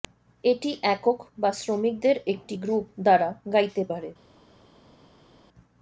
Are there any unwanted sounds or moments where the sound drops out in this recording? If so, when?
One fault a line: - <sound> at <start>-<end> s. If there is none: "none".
none